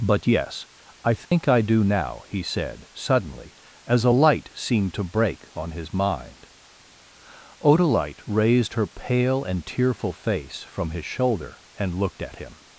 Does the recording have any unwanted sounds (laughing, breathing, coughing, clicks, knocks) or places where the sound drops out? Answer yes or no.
yes